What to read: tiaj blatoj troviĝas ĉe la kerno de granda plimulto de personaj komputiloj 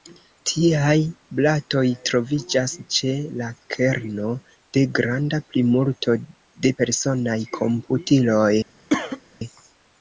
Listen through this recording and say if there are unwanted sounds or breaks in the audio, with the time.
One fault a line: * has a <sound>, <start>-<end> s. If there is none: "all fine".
* has a cough, 8.9-9.2 s